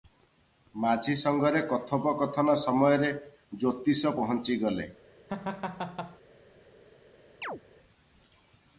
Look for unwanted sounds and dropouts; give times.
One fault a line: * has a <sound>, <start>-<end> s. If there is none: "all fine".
* has a laugh, 5.3-6.2 s
* has a chirp, 7.4-7.6 s